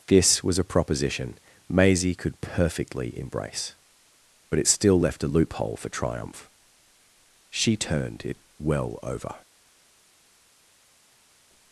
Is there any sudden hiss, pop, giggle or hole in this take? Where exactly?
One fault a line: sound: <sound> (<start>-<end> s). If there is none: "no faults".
no faults